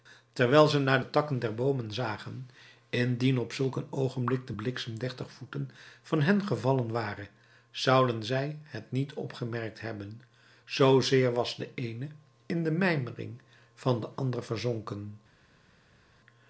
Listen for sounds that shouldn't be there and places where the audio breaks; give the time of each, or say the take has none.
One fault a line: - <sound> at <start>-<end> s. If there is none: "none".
none